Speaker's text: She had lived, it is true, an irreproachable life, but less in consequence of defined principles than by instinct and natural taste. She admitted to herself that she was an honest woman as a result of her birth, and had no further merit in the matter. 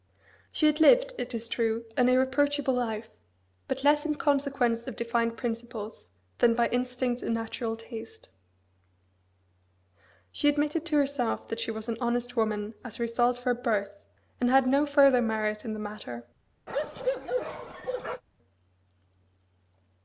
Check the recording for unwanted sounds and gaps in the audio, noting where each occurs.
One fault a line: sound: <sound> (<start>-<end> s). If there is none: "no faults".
sound: bark (16.7-18.2 s)